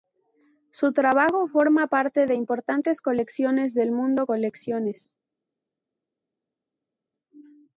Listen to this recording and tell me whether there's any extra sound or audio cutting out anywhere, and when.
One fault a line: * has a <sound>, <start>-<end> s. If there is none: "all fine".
all fine